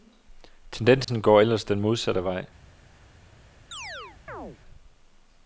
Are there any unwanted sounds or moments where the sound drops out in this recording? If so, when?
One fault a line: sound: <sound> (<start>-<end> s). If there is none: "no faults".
sound: dropout (1.0-1.1 s)
sound: chirp (3.7-4.6 s)